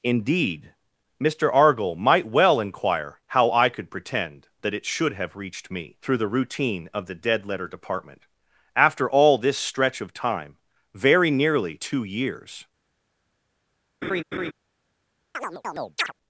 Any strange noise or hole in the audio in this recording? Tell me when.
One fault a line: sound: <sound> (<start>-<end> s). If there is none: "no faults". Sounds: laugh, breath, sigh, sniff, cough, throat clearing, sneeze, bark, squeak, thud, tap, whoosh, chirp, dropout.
sound: laugh (14.0-14.5 s)
sound: chirp (15.3-16.1 s)